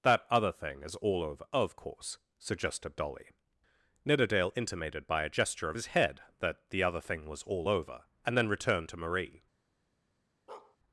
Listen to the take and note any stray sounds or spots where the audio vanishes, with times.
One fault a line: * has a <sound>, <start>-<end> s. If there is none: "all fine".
* has a bark, 10.5-10.8 s